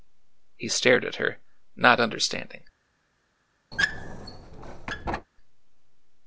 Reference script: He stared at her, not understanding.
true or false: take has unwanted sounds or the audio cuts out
true